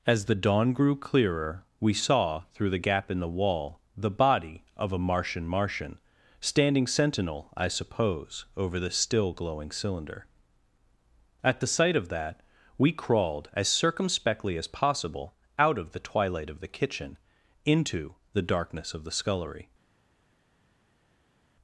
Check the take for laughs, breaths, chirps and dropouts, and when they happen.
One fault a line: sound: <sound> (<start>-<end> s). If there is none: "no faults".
no faults